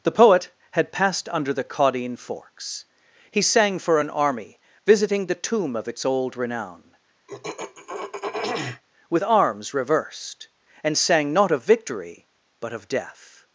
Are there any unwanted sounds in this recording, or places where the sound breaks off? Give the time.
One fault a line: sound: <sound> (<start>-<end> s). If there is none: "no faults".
sound: throat clearing (7.3-8.8 s)